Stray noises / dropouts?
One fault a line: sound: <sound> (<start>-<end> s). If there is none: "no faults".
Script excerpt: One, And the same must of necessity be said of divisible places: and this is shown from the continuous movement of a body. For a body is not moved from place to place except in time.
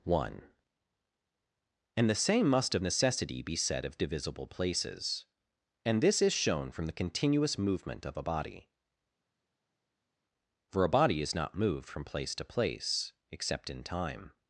no faults